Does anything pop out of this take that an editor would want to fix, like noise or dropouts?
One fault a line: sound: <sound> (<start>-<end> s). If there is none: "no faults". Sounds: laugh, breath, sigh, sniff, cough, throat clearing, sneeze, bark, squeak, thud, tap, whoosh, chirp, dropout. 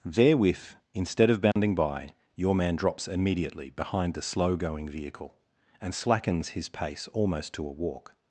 sound: dropout (1.5-1.6 s)